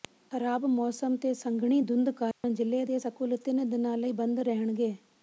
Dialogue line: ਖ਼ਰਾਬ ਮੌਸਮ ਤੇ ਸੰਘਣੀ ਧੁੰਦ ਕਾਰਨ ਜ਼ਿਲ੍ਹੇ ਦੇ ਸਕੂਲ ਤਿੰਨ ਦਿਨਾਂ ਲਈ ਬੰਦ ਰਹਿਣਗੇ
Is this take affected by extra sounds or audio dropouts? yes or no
yes